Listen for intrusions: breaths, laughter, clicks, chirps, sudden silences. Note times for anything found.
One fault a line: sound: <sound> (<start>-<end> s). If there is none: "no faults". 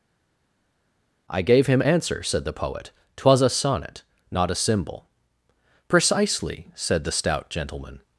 no faults